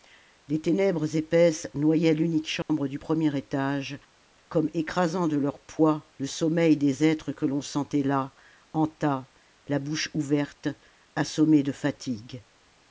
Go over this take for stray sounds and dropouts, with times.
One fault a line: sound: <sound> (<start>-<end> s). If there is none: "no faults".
sound: dropout (2.6-2.7 s)